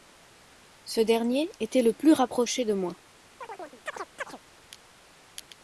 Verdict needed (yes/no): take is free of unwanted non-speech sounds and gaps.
no